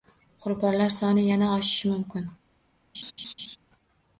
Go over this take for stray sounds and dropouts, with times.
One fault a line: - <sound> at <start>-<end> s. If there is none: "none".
- laugh at 2.9-3.6 s